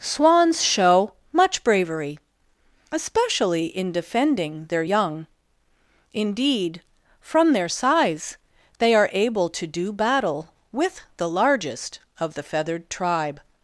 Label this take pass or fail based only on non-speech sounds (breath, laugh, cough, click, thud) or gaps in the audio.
pass